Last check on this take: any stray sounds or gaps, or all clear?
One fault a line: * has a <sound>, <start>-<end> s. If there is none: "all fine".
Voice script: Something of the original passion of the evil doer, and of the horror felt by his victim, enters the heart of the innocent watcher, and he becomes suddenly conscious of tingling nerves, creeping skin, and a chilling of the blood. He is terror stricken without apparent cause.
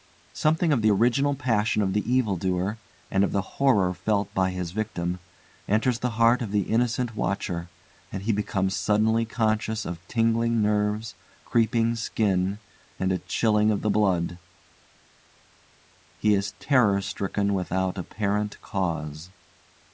all fine